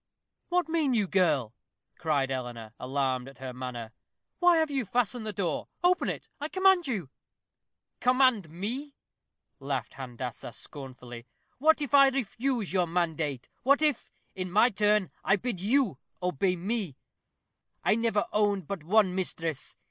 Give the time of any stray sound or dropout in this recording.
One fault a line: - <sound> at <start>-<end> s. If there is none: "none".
none